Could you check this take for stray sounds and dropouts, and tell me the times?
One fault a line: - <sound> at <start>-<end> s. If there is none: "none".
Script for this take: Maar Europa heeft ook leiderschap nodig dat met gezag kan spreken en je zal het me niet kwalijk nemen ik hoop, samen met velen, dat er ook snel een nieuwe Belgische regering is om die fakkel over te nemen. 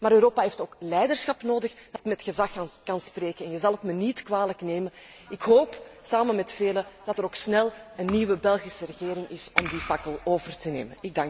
- dropout at 2.0-2.0 s